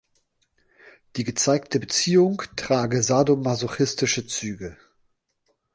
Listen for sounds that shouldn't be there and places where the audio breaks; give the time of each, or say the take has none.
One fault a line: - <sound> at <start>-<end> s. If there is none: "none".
none